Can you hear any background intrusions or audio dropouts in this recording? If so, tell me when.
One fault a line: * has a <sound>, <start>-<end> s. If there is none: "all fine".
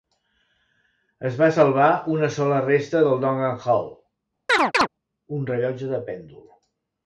* has a chirp, 4.5-4.9 s